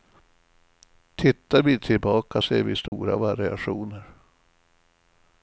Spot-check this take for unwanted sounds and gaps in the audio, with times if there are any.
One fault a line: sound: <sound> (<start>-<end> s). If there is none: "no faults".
sound: dropout (2.9-2.9 s)